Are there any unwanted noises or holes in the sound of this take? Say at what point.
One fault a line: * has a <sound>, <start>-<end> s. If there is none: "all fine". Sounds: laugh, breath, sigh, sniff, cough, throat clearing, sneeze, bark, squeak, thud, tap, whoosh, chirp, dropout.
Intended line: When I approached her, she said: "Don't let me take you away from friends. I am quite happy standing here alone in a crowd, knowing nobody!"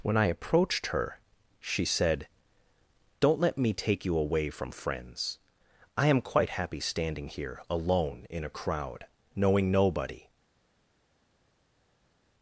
all fine